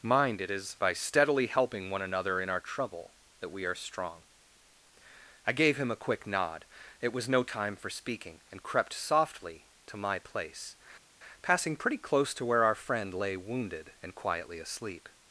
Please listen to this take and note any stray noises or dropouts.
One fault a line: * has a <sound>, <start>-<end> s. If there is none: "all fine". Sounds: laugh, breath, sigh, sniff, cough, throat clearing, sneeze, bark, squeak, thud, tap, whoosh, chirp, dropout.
all fine